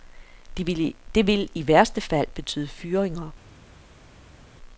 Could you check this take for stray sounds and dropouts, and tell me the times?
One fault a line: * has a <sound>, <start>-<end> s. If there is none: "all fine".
all fine